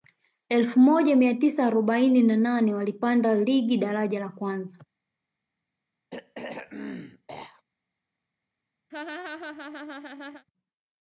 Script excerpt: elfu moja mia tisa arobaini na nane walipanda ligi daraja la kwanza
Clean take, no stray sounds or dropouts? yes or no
no